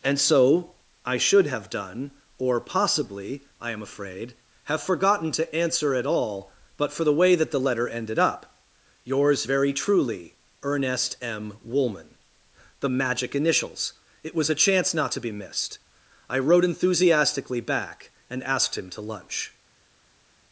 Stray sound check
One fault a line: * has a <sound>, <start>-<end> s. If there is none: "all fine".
all fine